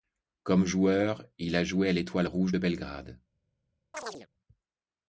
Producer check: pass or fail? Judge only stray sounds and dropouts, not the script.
fail